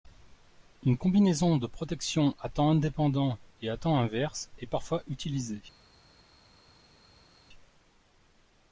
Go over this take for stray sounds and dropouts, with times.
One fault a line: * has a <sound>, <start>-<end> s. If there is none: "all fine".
all fine